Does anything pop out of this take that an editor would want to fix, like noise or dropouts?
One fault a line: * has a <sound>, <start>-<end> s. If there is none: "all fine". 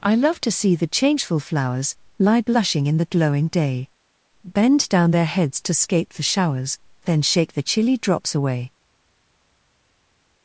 all fine